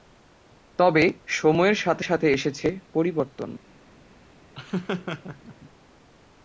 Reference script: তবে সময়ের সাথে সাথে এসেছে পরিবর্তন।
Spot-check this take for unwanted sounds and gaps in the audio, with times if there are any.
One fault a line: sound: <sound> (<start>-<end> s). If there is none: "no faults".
sound: laugh (4.5-5.6 s)